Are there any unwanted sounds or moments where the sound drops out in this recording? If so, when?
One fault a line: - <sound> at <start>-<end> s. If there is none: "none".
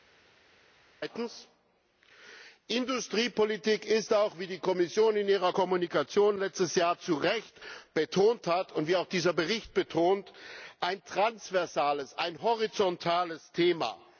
none